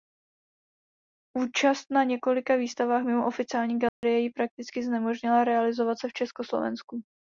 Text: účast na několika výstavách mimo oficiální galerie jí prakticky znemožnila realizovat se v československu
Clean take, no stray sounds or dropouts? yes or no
no